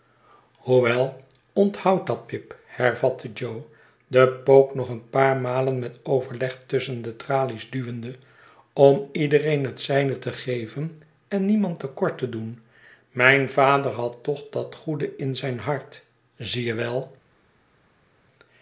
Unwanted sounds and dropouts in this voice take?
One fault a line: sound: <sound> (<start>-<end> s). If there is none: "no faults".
no faults